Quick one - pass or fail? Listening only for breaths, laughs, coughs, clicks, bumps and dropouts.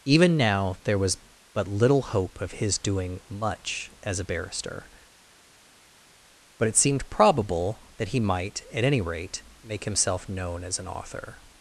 pass